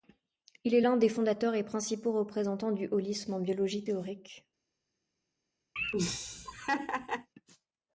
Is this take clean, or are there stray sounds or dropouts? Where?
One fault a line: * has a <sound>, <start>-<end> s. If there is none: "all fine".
* has a laugh, 5.8-7.3 s